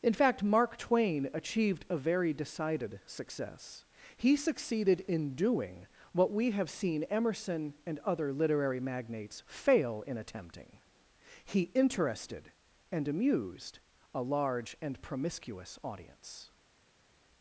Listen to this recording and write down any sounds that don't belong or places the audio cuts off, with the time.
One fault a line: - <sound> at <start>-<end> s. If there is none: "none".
none